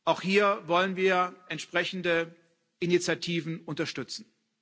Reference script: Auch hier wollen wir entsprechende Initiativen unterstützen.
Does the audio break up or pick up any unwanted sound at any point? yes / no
no